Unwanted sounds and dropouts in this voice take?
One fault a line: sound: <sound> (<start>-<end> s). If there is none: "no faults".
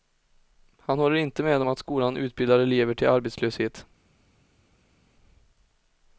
no faults